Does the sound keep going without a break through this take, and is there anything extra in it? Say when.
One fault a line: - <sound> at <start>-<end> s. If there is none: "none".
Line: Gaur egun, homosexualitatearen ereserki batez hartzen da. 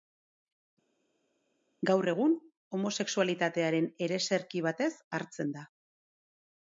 none